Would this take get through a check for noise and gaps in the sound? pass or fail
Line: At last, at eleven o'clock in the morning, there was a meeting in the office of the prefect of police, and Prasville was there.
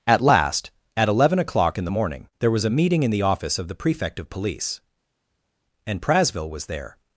pass